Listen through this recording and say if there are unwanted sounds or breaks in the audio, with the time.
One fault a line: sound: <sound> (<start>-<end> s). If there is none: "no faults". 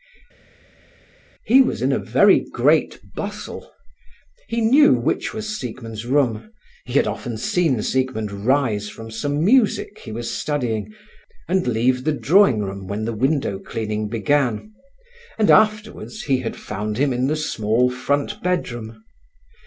no faults